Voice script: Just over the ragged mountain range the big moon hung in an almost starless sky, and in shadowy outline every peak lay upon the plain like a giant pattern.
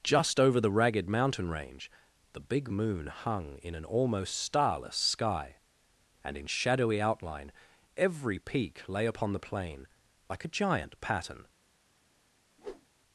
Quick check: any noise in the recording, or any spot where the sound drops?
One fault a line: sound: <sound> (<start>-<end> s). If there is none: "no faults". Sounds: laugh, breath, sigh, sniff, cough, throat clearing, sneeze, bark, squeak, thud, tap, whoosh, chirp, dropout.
sound: whoosh (12.6-12.9 s)